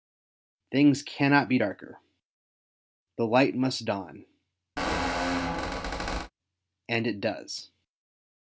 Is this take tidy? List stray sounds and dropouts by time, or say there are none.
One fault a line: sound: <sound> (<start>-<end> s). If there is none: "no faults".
sound: squeak (4.8-6.3 s)